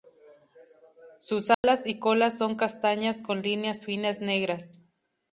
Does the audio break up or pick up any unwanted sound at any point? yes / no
yes